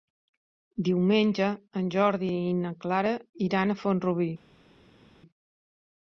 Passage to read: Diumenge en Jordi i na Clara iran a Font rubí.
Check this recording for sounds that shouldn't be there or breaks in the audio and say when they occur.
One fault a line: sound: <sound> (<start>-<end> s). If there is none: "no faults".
no faults